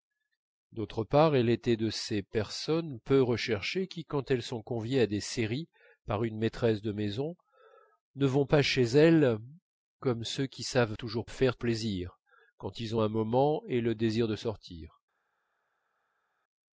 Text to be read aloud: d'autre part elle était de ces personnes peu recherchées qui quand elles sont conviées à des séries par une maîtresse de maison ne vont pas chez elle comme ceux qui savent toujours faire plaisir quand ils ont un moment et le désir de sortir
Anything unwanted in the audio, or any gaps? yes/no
no